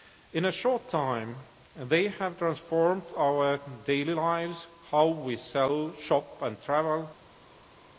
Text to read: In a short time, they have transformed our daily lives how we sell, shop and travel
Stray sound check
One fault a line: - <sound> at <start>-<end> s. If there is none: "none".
none